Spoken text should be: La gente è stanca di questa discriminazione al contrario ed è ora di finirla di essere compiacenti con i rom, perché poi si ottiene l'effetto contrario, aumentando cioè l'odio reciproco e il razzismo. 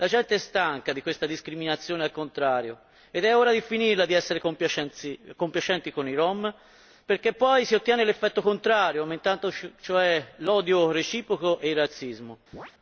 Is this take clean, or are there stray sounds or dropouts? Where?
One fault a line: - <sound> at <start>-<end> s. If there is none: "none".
- chirp at 12.5-12.7 s